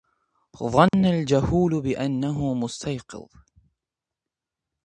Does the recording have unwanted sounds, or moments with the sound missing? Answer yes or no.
yes